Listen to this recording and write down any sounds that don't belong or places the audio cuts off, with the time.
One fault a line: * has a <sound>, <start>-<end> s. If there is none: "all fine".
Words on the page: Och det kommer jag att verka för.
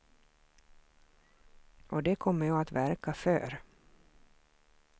all fine